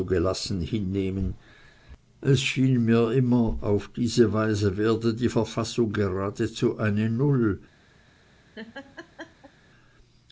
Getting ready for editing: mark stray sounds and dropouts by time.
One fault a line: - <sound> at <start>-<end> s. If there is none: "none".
- laugh at 8.5-9.5 s